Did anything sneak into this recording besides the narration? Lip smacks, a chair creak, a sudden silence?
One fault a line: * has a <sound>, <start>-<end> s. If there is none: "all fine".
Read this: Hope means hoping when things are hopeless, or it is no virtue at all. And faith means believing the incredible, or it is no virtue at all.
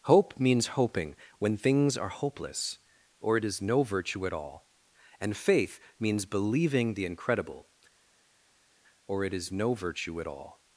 all fine